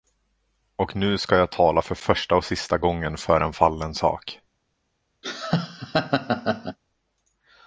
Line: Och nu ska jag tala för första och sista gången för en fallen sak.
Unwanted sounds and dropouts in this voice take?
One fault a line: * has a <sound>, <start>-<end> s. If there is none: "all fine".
* has a laugh, 5.2-6.8 s